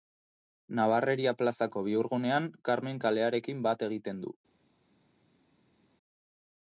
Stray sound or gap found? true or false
false